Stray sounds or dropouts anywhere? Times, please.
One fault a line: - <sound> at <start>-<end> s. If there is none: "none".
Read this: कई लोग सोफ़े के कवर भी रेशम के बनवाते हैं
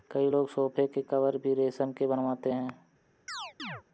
- chirp at 3.3-3.8 s